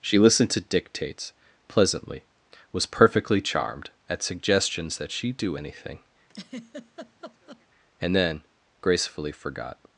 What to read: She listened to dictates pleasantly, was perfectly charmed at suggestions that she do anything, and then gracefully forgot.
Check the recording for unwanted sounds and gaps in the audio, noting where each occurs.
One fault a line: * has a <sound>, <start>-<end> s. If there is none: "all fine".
* has a laugh, 6.3-7.7 s